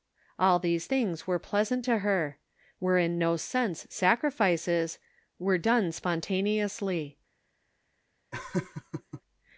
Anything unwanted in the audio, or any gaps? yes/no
yes